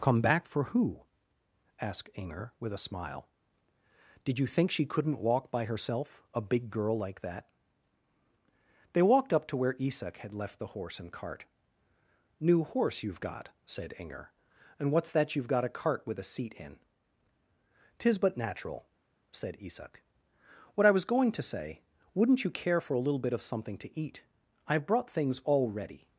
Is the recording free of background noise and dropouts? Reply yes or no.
yes